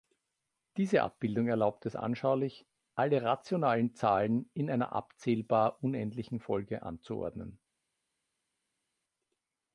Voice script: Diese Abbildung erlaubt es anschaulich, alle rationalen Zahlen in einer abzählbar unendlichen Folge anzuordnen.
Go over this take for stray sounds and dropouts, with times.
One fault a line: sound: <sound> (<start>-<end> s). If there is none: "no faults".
no faults